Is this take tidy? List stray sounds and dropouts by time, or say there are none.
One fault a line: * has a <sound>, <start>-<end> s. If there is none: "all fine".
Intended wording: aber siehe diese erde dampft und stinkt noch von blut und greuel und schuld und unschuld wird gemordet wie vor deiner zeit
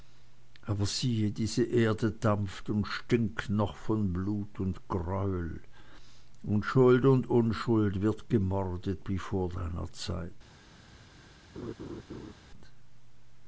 * has a laugh, 11.5-12.3 s